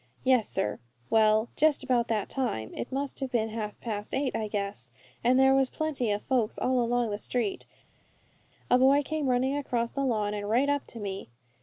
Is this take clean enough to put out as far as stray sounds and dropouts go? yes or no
yes